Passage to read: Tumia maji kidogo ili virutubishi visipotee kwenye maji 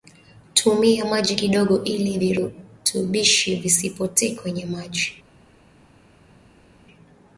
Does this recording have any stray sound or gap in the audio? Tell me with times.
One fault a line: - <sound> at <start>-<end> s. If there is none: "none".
none